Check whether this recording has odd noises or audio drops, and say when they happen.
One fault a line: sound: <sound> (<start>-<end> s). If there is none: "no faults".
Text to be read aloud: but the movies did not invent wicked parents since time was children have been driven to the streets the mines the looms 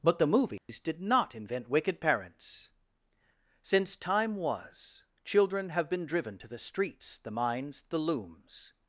sound: dropout (0.6-0.7 s)